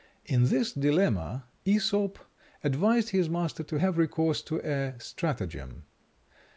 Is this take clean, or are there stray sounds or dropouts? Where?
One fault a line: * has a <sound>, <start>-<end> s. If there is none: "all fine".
all fine